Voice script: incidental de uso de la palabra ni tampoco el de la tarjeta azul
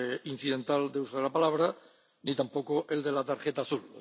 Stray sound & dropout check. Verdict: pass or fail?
pass